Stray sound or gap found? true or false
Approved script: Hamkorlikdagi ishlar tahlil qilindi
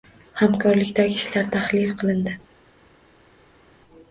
false